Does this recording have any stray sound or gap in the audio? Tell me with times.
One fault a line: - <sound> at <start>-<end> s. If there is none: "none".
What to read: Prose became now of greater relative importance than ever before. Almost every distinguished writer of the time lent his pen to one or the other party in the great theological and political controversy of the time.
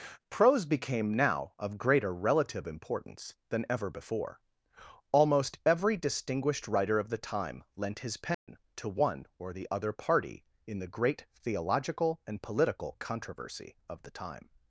- dropout at 8.3-8.5 s